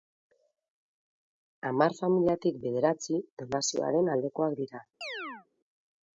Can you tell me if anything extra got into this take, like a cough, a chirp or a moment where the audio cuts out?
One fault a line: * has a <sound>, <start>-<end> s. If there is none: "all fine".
* has a chirp, 5.0-5.5 s